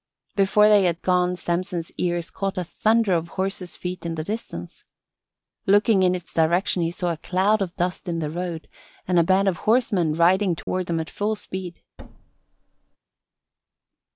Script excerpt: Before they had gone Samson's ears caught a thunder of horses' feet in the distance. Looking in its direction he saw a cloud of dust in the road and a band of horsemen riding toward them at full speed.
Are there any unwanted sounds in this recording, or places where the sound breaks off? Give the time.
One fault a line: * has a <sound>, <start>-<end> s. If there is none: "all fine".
* has a dropout, 10.6-10.7 s
* has a thud, 12.0-13.0 s